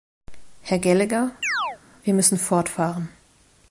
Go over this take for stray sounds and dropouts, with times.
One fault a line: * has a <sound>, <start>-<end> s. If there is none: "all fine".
* has a chirp, 1.4-1.8 s